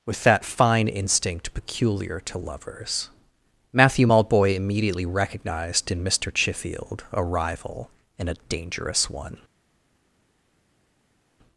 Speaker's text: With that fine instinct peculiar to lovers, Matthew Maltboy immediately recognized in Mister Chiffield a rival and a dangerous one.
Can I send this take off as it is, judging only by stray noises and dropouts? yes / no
yes